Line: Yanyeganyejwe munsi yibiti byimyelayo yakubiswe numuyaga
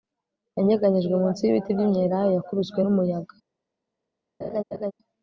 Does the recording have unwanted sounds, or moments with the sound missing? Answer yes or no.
yes